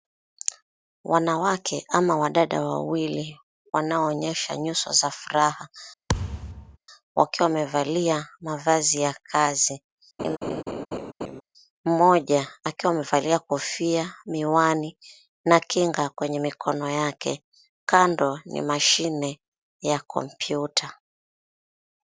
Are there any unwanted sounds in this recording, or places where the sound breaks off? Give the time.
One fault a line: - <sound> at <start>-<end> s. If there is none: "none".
- thud at 6.1-6.8 s
- laugh at 10.2-11.4 s